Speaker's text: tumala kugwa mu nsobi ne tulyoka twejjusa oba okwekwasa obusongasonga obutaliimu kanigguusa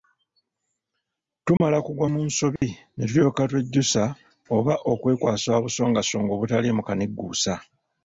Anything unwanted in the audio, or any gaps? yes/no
yes